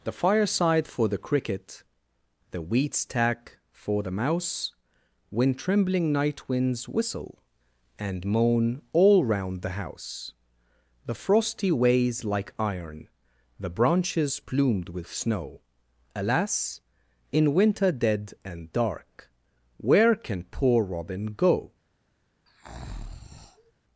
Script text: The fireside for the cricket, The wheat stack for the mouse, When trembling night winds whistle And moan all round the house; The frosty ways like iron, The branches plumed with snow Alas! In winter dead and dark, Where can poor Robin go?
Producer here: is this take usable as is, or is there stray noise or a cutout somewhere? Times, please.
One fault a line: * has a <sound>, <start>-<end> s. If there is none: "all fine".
* has a breath, 22.5-23.7 s